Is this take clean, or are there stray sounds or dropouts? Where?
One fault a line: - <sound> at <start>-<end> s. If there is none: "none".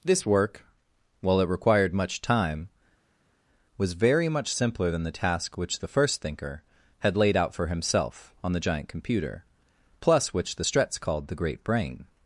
none